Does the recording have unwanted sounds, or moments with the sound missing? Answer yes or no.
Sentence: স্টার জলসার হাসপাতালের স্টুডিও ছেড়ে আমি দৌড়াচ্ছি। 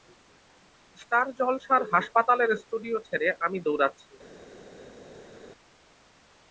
no